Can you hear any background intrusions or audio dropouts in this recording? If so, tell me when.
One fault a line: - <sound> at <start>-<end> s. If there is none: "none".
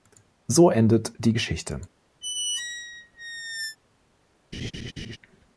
- squeak at 2.2-3.8 s
- laugh at 4.5-5.2 s